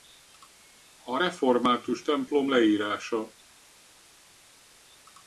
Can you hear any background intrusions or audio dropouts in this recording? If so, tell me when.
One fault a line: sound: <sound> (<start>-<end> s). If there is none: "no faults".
no faults